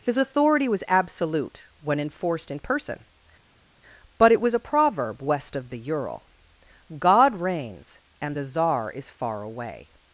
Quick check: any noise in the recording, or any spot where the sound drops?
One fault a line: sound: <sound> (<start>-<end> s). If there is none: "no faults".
no faults